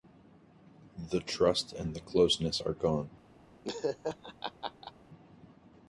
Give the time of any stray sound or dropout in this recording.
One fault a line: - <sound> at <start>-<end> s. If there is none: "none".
- laugh at 3.6-4.9 s